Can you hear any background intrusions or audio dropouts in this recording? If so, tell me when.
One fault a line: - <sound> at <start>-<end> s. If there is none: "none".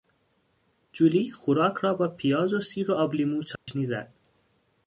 - dropout at 3.6-3.7 s